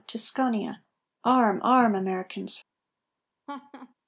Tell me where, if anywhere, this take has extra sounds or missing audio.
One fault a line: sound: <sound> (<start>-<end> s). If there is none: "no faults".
sound: laugh (3.5-3.9 s)